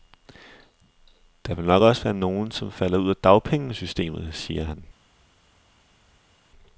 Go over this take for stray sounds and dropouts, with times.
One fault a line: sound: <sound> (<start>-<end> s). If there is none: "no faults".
no faults